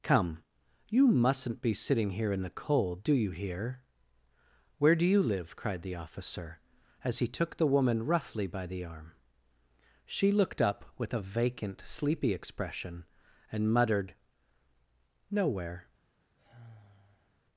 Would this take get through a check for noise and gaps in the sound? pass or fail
fail